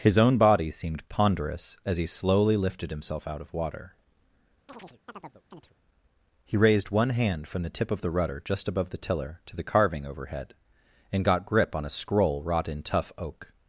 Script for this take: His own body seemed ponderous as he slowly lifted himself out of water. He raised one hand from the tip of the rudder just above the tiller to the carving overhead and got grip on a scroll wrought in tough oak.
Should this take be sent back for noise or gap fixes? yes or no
yes